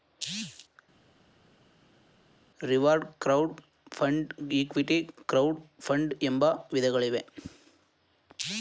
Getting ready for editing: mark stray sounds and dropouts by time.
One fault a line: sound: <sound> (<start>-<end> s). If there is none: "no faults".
no faults